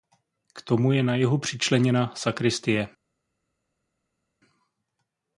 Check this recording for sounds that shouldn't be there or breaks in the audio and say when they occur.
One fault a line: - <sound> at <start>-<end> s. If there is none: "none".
none